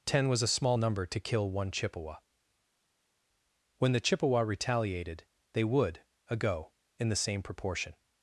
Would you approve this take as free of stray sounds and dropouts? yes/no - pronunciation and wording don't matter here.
yes